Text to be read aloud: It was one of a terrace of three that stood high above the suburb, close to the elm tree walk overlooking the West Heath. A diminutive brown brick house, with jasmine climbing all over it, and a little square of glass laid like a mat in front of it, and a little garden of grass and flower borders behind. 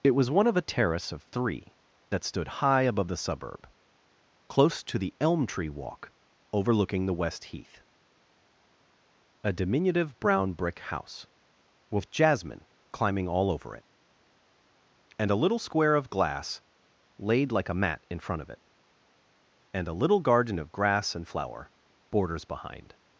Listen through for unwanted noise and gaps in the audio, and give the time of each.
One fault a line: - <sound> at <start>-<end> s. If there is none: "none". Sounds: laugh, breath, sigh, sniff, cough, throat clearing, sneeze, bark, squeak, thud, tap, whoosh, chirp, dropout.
none